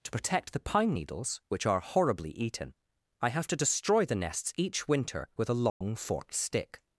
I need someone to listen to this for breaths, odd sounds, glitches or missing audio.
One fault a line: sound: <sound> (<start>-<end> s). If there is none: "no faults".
sound: dropout (5.7-5.8 s)